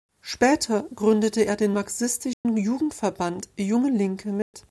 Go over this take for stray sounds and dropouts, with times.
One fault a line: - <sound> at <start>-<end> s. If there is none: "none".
- dropout at 2.3-2.5 s
- dropout at 4.4-4.5 s